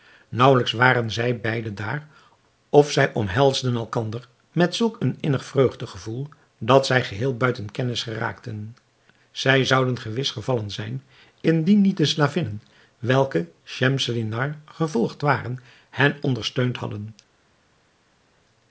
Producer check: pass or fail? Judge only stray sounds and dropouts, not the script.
pass